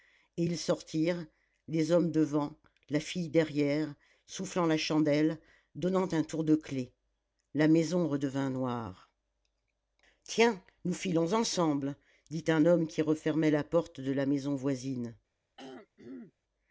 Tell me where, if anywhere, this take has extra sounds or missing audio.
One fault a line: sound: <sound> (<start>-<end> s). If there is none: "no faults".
sound: throat clearing (15.6-16.3 s)